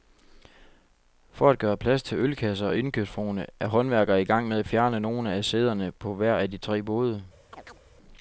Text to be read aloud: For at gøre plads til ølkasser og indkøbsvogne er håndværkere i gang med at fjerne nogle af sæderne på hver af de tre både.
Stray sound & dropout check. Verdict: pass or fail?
fail